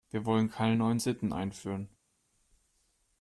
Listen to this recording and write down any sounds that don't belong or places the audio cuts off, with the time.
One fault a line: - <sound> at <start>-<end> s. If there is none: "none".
none